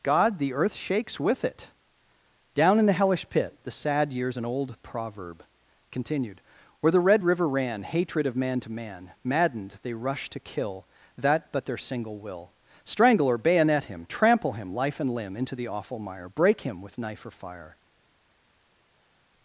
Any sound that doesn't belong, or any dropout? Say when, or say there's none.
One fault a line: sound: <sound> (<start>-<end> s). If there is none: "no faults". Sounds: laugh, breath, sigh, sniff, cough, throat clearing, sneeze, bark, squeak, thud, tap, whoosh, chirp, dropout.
no faults